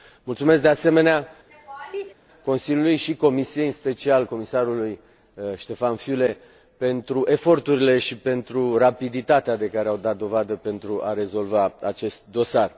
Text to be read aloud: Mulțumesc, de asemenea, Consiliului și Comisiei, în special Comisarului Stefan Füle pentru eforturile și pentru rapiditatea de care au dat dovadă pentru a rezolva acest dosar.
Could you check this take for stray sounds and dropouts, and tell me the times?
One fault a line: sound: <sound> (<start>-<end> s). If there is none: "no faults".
sound: laugh (1.5-2.1 s)